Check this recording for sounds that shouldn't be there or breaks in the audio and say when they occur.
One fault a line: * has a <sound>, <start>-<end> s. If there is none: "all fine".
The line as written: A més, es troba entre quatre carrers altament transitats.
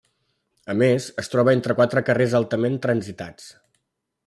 all fine